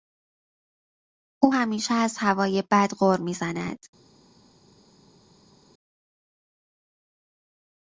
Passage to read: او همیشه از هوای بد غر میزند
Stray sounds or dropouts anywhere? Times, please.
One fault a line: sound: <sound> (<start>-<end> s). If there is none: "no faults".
no faults